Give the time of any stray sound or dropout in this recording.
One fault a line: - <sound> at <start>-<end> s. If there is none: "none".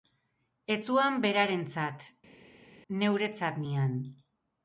none